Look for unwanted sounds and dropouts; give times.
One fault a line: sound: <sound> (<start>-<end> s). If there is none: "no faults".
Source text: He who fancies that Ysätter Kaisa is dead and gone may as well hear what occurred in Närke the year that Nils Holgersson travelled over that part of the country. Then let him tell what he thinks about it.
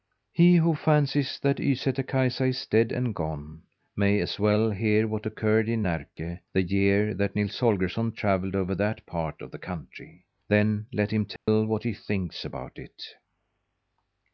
sound: dropout (11.4-11.5 s)